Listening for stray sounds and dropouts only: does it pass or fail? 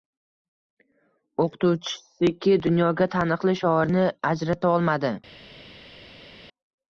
pass